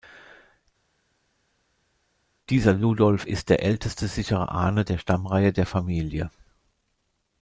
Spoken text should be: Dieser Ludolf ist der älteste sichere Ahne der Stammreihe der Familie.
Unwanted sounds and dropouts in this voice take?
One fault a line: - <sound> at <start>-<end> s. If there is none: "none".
none